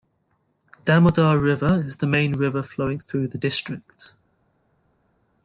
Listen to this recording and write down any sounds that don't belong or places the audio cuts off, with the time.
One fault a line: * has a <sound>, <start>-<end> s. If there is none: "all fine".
all fine